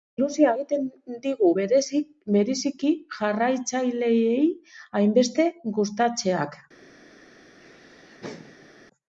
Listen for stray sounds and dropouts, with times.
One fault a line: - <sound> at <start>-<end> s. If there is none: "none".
- laugh at 7.6-8.8 s